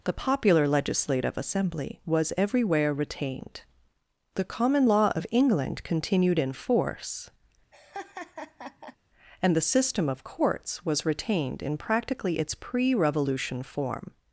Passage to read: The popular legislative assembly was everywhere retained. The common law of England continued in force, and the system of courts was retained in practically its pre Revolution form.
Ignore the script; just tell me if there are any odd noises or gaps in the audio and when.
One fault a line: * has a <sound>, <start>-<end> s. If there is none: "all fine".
* has a laugh, 7.7-9.0 s